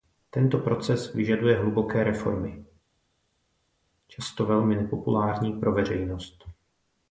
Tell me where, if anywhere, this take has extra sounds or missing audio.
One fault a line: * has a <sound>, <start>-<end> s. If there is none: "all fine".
all fine